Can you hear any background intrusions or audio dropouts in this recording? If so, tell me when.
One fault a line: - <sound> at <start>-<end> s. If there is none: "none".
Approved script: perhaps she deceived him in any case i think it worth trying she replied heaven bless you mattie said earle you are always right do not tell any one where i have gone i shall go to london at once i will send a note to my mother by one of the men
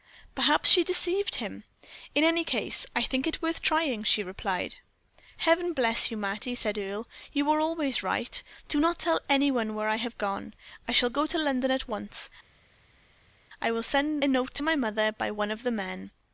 none